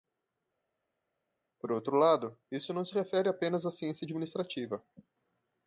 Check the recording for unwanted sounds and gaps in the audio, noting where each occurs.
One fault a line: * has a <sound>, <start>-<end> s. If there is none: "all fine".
all fine